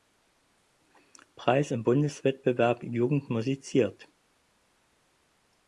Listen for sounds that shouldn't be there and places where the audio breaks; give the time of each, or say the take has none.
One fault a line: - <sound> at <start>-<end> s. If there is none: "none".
none